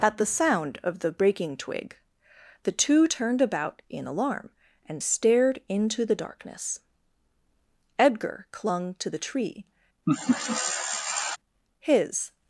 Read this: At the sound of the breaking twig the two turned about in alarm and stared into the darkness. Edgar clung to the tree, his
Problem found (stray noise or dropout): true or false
true